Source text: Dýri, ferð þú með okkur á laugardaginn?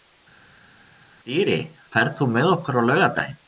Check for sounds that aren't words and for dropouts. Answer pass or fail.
pass